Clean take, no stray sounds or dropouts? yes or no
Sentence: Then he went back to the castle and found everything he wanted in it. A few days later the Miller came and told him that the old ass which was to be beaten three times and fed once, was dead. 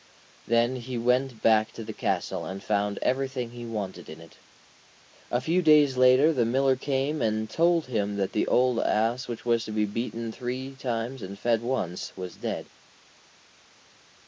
yes